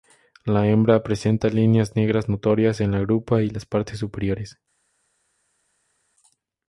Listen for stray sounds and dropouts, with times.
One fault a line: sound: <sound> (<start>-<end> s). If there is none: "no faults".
no faults